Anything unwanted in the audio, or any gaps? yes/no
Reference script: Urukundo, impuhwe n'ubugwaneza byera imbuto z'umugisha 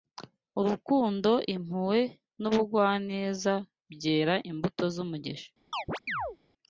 yes